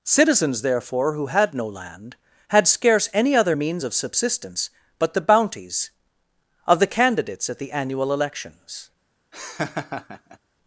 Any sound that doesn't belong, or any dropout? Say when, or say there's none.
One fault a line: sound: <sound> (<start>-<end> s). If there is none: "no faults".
sound: laugh (9.3-10.4 s)